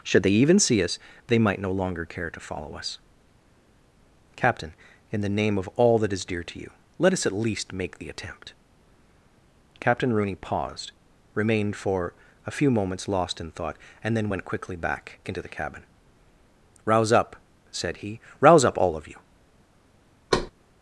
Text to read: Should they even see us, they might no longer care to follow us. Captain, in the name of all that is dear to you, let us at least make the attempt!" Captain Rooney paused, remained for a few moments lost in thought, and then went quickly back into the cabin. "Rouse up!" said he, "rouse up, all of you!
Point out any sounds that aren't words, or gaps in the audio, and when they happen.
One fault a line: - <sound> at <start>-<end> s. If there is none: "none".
- thud at 20.3-20.5 s